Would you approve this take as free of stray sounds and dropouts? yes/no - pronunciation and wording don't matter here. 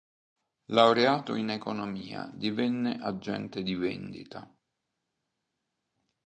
yes